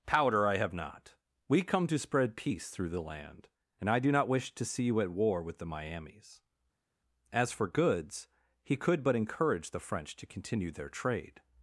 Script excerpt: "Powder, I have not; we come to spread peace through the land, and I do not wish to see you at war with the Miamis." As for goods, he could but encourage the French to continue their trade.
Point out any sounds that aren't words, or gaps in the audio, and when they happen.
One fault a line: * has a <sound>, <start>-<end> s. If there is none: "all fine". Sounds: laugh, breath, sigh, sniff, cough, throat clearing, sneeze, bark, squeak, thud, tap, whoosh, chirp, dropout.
all fine